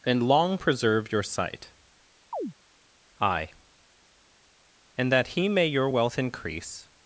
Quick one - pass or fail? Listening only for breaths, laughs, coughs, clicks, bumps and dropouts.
fail